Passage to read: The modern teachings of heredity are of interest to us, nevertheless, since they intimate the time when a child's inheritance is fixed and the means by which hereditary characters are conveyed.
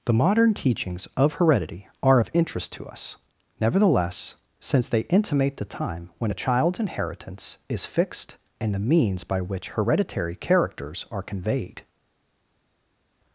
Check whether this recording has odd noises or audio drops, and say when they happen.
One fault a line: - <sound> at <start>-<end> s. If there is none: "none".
none